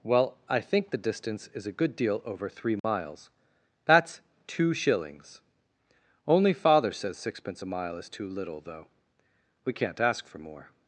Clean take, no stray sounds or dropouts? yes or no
no